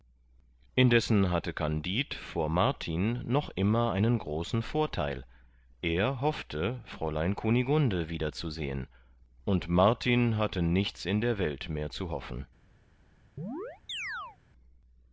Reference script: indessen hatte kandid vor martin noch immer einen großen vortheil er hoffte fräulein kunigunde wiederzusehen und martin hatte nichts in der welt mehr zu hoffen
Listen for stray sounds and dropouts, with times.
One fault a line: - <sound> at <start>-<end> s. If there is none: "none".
- chirp at 13.4-14.4 s